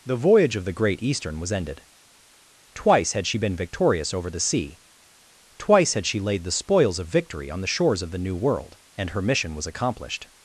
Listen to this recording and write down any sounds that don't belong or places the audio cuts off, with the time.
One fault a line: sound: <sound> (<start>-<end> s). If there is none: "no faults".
no faults